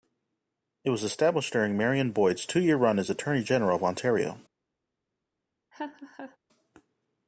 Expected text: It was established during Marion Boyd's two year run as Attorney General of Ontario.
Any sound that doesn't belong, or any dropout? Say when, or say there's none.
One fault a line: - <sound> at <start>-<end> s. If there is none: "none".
- laugh at 5.7-6.4 s